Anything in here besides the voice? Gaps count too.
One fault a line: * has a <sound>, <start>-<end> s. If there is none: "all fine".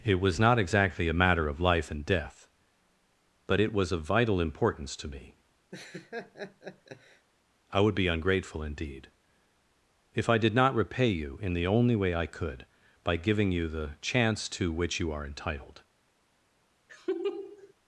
* has a laugh, 5.7-7.3 s
* has a laugh, 16.9-17.7 s